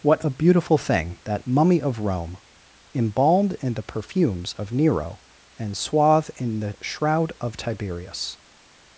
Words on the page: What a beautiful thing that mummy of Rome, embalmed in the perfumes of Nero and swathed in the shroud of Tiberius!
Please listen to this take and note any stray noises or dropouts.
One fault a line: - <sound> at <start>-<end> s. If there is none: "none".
none